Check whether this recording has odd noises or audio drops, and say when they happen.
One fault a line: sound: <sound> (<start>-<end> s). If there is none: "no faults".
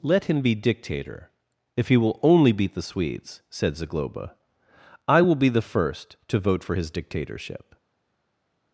no faults